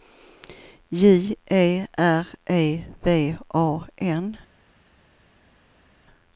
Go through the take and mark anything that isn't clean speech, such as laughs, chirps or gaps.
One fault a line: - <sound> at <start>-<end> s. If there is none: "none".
none